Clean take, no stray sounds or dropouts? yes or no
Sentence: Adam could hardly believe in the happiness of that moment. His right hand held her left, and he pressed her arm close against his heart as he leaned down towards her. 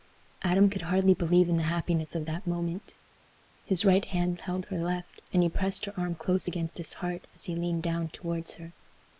yes